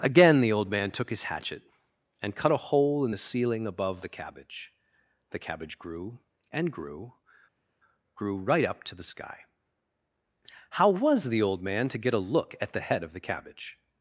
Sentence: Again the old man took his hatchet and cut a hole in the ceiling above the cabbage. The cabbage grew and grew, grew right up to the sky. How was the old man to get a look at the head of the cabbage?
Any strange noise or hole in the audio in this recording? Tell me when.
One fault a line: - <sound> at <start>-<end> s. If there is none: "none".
none